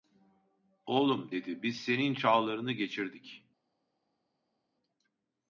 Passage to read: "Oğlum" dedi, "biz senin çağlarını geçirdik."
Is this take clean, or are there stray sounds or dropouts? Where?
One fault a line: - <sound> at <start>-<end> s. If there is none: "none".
none